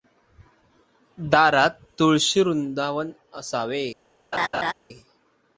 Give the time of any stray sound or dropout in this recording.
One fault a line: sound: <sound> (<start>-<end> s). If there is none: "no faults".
sound: laugh (4.3-4.7 s)